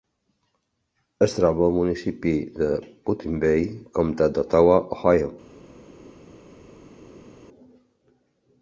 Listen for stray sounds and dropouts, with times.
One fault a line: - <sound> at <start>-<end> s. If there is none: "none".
none